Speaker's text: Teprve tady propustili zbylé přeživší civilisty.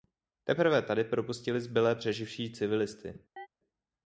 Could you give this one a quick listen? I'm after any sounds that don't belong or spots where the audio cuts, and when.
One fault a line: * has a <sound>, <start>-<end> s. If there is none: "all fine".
* has a chirp, 3.4-3.5 s